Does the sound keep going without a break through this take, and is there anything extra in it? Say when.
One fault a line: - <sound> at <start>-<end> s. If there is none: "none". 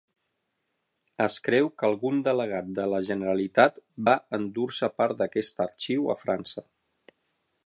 none